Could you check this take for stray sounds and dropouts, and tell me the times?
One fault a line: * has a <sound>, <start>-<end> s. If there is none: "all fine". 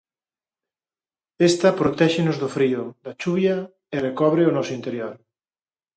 all fine